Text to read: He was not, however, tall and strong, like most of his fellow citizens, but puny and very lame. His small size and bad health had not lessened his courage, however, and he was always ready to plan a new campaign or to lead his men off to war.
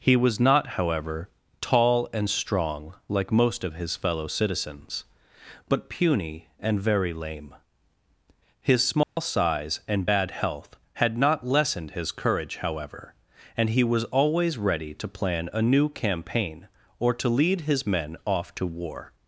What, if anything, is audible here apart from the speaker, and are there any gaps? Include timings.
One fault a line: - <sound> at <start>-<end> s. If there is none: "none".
- dropout at 9.0-9.2 s